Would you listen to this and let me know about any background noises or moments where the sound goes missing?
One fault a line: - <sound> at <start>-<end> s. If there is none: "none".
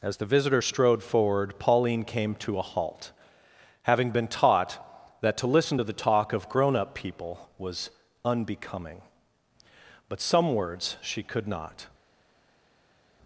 none